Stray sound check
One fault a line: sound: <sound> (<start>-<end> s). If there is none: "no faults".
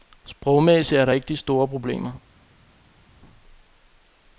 no faults